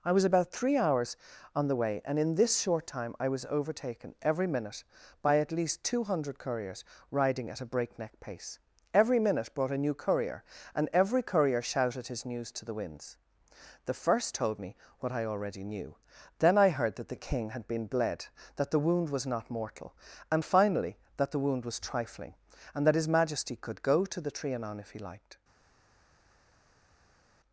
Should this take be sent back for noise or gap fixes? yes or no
no